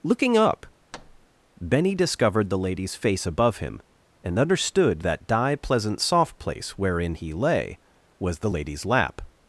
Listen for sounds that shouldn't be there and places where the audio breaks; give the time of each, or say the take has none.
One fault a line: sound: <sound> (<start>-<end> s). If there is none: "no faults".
sound: thud (0.9-1.3 s)